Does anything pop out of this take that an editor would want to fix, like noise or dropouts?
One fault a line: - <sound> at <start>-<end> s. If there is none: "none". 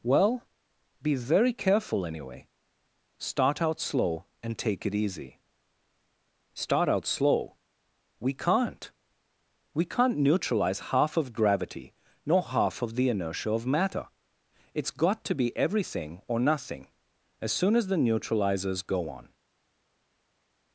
none